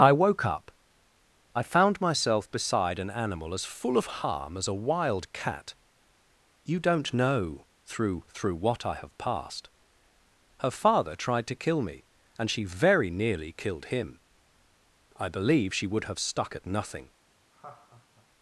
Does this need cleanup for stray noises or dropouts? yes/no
yes